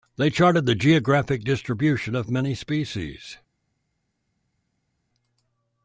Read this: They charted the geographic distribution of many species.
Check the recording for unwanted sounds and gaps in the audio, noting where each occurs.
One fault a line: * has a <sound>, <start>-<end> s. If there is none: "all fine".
all fine